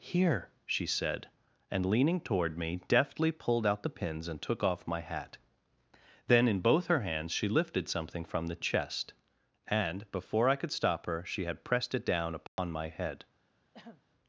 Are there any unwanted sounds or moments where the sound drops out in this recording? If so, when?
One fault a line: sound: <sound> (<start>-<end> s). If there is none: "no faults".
sound: dropout (12.5-12.6 s)
sound: throat clearing (13.7-14.0 s)